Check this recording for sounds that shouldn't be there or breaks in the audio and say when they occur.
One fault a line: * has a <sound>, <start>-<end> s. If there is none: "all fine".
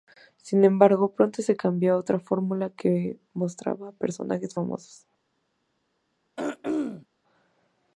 * has a throat clearing, 6.4-7.1 s